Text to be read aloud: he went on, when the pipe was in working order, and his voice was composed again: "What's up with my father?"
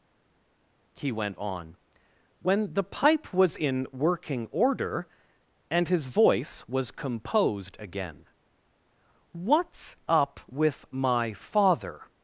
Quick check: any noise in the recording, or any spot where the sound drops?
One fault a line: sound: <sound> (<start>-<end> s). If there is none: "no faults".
no faults